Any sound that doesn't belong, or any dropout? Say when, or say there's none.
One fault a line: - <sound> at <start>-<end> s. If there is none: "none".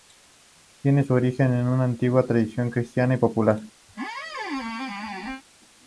- squeak at 3.9-5.4 s